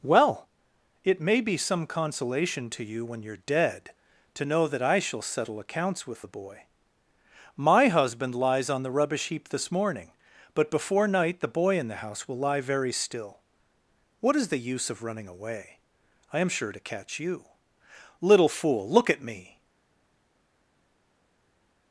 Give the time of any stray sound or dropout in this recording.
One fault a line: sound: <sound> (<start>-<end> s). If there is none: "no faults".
no faults